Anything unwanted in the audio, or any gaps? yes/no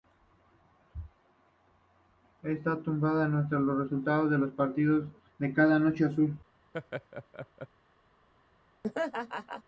yes